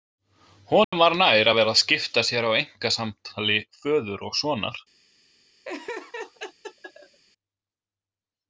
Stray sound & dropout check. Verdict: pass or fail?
fail